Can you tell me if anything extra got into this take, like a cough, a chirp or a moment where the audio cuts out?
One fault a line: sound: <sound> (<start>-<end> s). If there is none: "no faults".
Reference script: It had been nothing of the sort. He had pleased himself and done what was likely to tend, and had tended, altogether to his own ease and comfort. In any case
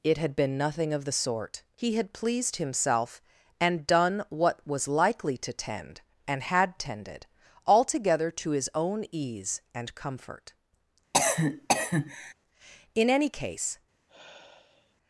sound: cough (11.1-12.3 s)
sound: sigh (14.1-15.0 s)